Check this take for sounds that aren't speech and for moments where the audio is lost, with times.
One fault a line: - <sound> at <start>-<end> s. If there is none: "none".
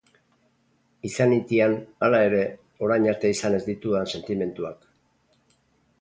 none